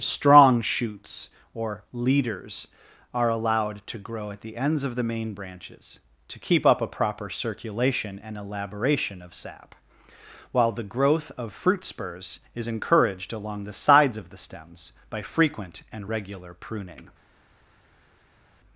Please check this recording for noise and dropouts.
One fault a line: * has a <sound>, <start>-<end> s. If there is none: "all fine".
all fine